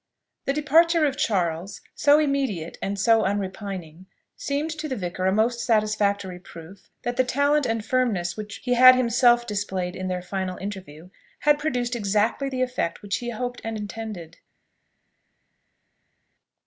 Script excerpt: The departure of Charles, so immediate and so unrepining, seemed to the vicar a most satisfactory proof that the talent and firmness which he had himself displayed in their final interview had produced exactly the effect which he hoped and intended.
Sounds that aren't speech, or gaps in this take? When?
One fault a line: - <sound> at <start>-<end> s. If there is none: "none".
none